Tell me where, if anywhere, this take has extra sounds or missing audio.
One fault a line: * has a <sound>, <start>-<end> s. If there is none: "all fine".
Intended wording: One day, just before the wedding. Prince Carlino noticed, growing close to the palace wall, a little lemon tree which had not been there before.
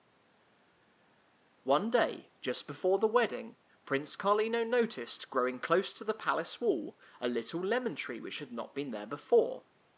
all fine